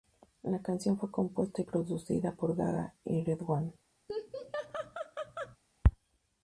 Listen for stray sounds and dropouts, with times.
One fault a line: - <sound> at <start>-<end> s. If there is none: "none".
- laugh at 4.1-5.6 s